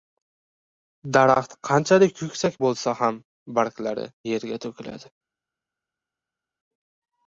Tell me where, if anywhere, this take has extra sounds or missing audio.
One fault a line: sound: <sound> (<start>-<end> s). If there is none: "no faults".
no faults